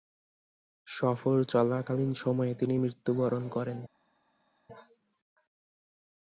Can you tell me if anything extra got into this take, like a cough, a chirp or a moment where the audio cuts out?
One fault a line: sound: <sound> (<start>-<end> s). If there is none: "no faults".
no faults